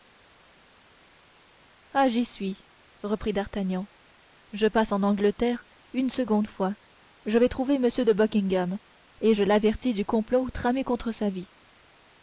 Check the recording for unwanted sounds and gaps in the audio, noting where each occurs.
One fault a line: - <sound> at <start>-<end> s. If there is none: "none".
none